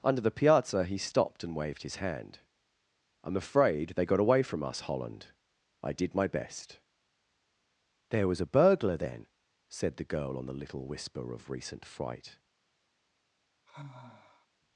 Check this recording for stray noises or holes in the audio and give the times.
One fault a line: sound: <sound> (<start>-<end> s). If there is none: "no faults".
sound: sigh (13.7-14.5 s)